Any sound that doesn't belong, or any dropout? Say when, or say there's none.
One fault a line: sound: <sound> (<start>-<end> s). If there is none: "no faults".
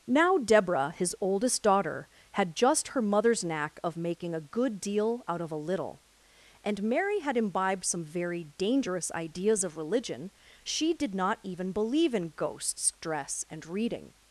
no faults